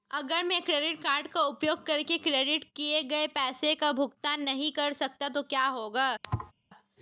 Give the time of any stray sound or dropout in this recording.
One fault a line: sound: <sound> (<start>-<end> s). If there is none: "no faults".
sound: thud (6.2-6.5 s)